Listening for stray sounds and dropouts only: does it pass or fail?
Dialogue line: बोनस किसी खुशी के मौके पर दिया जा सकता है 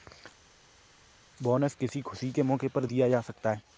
pass